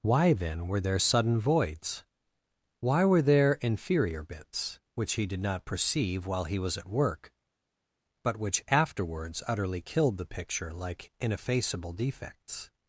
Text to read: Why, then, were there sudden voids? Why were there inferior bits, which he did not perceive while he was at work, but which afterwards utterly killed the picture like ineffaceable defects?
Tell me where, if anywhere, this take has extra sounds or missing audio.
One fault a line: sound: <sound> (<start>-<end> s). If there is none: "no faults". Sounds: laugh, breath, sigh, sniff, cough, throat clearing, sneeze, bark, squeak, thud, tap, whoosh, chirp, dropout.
no faults